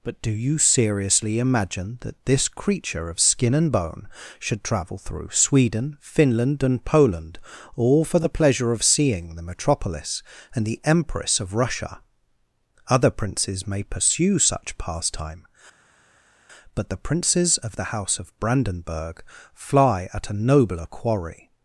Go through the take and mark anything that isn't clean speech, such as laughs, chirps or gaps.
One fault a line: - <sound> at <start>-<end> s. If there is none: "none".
none